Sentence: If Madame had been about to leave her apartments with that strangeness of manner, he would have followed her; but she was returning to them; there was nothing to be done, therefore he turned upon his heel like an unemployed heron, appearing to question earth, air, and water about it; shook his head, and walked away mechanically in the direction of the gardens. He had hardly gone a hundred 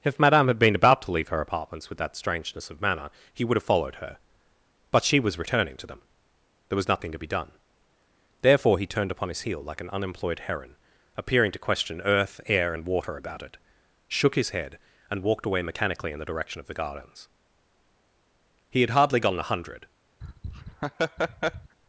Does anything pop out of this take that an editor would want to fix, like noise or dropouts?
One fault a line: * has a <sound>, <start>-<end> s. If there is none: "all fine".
* has a laugh, 20.2-21.8 s